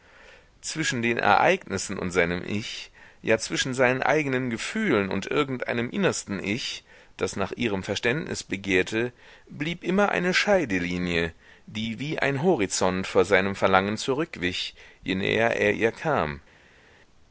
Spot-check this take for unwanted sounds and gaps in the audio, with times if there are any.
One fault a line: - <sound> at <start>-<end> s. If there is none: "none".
none